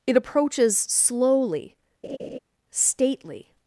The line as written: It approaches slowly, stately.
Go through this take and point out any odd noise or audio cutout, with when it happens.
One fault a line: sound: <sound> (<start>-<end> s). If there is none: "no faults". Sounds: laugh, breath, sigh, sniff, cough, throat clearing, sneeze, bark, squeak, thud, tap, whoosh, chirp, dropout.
sound: laugh (2.0-2.4 s)